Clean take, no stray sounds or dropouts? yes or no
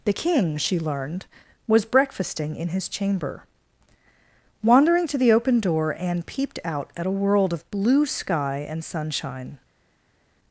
yes